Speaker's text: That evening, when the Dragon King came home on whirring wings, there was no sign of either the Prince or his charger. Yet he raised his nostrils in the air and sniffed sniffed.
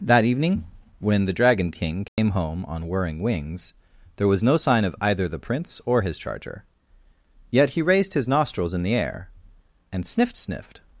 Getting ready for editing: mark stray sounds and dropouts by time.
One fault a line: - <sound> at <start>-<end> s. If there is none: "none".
- dropout at 2.1-2.2 s